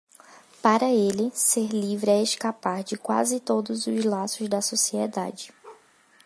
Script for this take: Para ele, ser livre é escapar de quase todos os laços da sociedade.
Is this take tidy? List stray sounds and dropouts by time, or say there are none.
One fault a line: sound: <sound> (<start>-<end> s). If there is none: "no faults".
sound: bark (5.6-5.9 s)